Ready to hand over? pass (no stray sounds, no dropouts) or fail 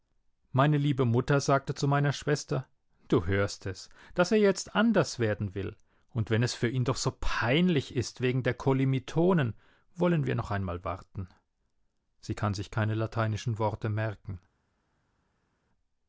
pass